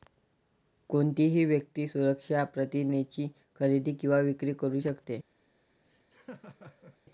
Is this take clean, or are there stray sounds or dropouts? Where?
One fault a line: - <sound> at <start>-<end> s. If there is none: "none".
- laugh at 5.8-7.0 s